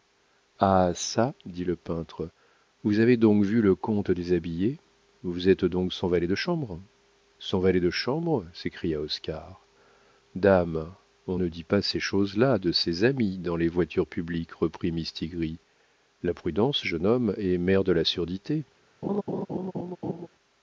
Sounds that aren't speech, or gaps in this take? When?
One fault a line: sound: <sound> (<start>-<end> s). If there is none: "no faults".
sound: laugh (19.0-20.3 s)